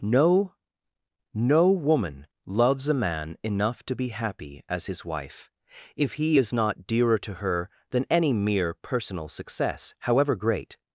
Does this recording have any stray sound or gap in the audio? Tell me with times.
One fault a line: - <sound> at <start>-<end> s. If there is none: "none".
none